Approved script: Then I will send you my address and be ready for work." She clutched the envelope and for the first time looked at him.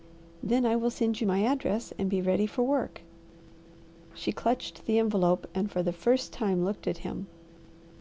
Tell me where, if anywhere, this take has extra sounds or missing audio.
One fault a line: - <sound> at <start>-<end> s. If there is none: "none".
none